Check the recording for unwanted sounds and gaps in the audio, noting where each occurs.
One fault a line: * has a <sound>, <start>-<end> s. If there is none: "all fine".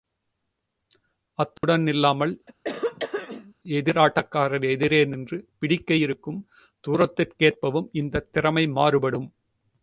* has a dropout, 1.6-1.6 s
* has a throat clearing, 2.5-3.5 s